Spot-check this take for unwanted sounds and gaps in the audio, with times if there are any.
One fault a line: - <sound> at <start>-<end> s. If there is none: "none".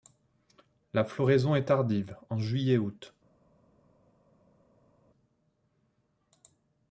none